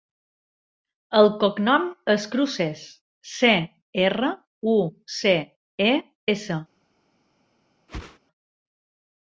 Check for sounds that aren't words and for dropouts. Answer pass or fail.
fail